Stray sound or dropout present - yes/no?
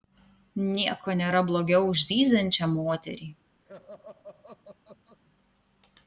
yes